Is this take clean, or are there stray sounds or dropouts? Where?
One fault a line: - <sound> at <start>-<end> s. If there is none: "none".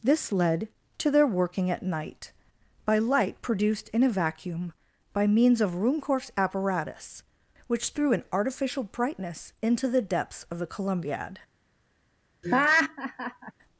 - laugh at 12.4-13.5 s